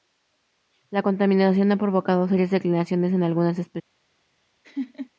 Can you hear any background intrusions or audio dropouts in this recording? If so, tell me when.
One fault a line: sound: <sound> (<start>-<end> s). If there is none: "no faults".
sound: laugh (4.6-5.1 s)